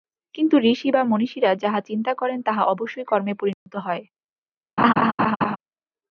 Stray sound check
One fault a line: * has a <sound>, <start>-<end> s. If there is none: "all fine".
* has a dropout, 3.5-3.7 s
* has a laugh, 4.8-5.6 s